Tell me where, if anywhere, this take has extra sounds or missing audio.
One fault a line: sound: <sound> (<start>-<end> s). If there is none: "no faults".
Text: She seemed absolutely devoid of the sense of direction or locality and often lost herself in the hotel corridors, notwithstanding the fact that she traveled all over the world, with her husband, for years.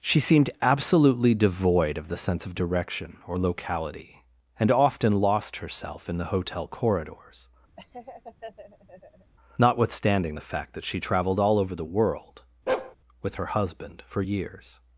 sound: laugh (7.8-9.3 s)
sound: bark (12.7-13.0 s)